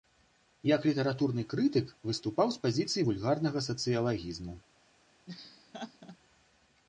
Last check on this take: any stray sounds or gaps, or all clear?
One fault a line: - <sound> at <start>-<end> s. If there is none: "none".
- laugh at 5.3-6.2 s